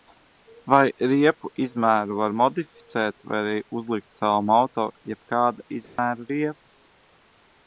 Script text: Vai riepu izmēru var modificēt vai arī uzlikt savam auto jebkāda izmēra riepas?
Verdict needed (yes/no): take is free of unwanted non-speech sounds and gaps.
no